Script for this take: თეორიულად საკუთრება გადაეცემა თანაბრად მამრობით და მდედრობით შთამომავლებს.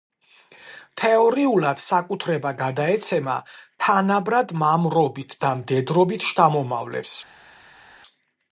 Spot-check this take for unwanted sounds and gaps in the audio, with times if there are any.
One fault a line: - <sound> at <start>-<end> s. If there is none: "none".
none